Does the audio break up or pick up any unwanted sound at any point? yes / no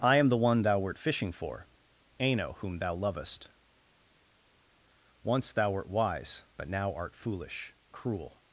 no